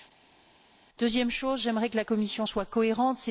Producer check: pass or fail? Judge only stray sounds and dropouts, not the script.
pass